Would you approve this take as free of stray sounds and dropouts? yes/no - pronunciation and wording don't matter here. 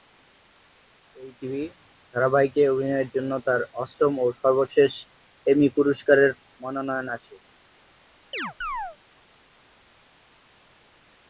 no